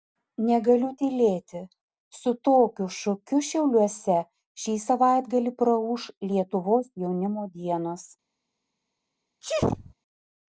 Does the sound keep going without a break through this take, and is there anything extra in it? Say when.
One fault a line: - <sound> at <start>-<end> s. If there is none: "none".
- sneeze at 9.4-9.9 s